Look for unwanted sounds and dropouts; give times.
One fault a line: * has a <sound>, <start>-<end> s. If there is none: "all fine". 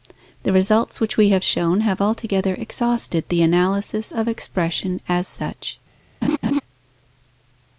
* has a laugh, 6.2-6.6 s